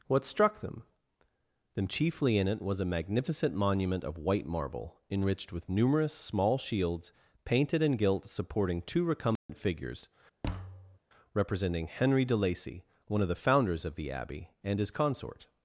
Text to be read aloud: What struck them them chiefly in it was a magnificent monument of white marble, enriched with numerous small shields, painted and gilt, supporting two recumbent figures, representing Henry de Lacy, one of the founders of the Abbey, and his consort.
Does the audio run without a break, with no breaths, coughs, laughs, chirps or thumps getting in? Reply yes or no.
no